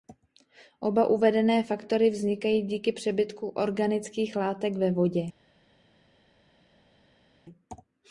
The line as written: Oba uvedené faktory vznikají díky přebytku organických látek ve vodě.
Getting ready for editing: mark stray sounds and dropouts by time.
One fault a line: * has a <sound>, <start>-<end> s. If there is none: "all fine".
all fine